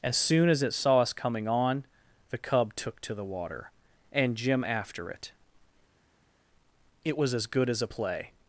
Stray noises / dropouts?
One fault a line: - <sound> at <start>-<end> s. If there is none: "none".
none